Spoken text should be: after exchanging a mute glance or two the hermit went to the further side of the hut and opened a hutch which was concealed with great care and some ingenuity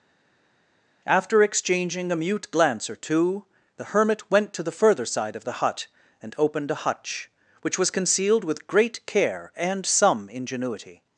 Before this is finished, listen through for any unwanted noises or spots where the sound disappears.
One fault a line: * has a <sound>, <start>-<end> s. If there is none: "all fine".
all fine